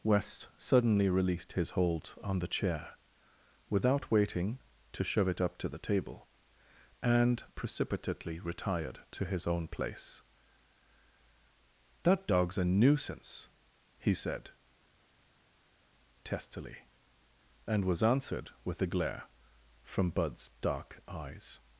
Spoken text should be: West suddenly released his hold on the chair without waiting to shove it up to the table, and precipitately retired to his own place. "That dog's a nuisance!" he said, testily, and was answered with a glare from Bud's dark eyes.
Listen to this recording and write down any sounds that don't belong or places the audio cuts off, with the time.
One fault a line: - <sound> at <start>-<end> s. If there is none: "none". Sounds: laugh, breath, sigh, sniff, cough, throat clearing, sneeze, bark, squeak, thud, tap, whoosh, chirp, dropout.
none